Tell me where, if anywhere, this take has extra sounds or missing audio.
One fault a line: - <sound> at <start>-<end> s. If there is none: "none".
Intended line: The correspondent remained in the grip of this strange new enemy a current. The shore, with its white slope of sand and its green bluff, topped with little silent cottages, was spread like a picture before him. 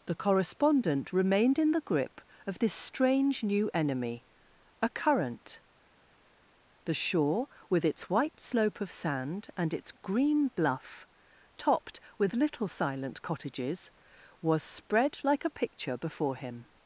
none